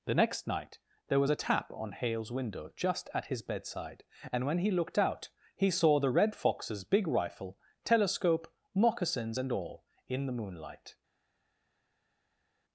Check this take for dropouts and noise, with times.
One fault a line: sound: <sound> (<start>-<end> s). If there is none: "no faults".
no faults